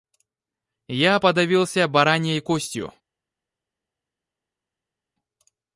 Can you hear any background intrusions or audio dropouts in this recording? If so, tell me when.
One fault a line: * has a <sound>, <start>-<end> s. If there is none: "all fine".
all fine